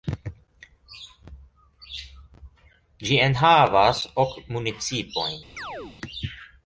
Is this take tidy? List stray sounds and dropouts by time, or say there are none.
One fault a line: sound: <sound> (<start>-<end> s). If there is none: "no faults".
sound: chirp (5.6-6.0 s)